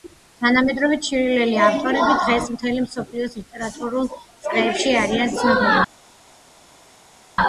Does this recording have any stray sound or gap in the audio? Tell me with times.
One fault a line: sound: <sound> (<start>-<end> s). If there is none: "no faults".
no faults